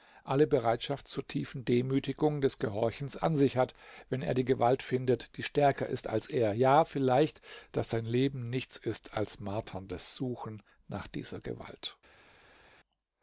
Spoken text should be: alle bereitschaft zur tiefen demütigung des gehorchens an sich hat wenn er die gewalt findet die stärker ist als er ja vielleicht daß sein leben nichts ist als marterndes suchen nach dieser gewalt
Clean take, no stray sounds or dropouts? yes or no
yes